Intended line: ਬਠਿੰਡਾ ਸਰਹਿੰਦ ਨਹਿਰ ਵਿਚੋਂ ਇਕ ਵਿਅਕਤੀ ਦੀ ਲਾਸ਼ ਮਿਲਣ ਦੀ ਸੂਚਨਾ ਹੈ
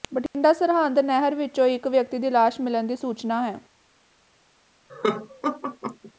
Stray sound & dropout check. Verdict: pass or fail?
fail